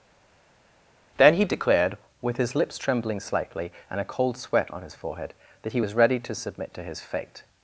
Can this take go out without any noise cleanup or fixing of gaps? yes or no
yes